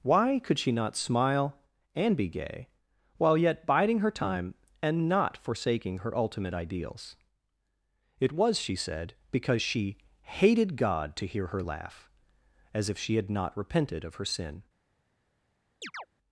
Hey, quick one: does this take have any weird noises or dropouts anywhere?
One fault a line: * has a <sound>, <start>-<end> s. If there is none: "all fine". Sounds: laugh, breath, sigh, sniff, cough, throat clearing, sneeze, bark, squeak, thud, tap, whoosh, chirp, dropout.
* has a chirp, 15.8-16.1 s